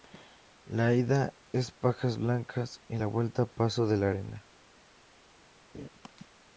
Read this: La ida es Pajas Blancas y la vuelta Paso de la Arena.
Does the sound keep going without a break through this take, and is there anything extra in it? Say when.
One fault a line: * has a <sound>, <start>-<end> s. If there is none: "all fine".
* has a laugh, 5.7-5.9 s